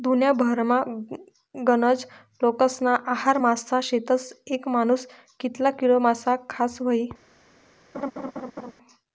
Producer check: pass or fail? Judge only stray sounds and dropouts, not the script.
fail